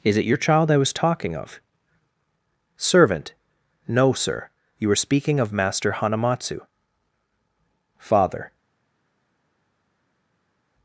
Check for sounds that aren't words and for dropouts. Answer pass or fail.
pass